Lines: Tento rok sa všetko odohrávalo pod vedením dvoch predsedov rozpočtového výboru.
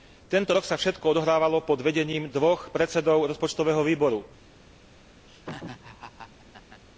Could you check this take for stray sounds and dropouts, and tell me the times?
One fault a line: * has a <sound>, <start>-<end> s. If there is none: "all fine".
* has a laugh, 5.3-6.8 s